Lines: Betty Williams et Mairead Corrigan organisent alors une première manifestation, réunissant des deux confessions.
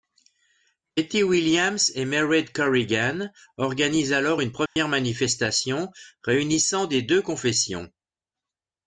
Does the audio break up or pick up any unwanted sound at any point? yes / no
yes